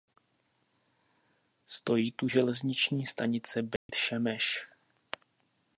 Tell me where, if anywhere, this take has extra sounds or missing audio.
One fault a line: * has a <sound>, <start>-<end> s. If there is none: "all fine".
* has a dropout, 3.8-3.9 s